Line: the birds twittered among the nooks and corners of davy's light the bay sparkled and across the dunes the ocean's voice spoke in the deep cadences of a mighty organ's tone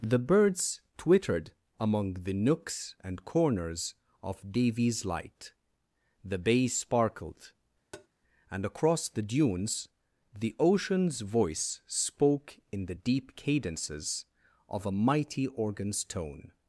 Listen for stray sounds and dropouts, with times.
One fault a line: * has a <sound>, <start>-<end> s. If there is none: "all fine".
* has a tap, 7.9-8.1 s